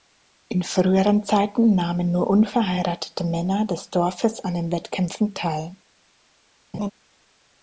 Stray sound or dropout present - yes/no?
yes